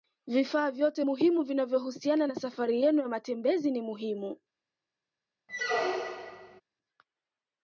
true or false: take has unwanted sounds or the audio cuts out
true